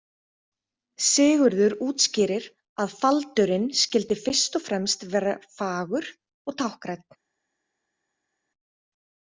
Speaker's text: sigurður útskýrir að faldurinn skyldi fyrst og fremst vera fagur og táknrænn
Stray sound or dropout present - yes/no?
no